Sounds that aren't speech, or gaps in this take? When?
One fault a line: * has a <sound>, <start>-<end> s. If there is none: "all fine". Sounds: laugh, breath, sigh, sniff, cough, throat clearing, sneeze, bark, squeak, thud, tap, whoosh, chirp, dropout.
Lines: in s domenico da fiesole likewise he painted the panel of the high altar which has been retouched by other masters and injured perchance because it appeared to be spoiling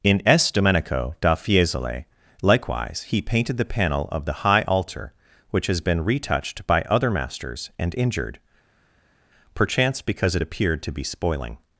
all fine